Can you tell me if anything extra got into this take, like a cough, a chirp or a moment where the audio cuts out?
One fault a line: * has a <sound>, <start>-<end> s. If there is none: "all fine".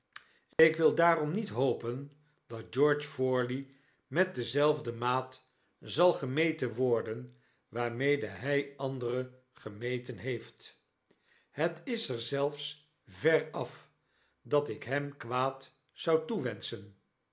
* has a dropout, 0.5-0.6 s